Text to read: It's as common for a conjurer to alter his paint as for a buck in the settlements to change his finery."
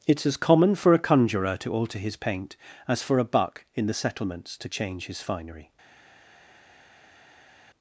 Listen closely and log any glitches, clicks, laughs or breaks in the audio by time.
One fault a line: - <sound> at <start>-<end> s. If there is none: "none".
none